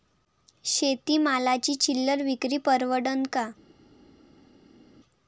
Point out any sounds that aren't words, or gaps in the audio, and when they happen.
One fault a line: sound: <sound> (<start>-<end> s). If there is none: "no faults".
no faults